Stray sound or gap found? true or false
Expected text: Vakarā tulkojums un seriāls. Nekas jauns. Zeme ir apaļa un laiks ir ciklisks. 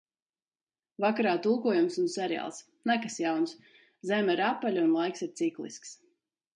false